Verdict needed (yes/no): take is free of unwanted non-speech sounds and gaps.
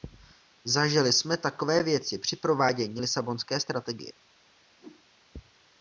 no